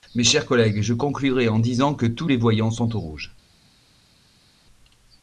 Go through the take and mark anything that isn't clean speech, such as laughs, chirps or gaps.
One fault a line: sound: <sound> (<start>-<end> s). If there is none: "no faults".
no faults